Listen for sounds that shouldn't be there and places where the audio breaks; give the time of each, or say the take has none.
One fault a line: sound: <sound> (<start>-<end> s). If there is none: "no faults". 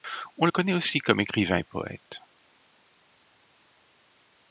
no faults